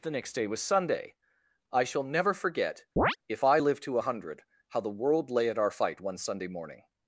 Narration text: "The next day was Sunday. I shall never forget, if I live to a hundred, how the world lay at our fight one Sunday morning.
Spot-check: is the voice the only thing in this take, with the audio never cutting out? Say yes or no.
no